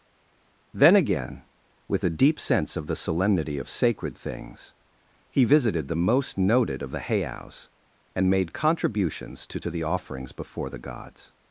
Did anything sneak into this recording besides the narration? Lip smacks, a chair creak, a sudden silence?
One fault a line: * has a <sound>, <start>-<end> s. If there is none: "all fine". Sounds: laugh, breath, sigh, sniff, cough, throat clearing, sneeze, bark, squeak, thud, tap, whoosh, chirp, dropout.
all fine